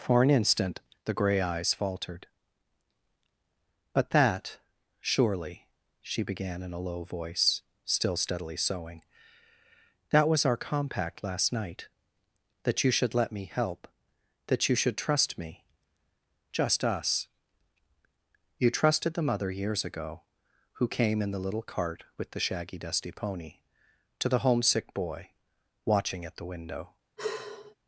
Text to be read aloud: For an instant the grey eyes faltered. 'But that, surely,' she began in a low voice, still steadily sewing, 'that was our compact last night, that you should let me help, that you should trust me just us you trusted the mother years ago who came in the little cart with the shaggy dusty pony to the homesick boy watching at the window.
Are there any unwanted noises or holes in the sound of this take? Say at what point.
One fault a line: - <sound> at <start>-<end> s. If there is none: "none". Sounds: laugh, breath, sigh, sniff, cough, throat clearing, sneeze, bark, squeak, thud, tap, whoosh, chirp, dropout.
- sigh at 27.2-27.7 s